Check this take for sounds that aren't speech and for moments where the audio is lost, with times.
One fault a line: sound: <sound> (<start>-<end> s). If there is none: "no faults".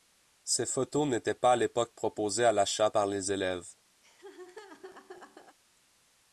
sound: laugh (4.0-5.6 s)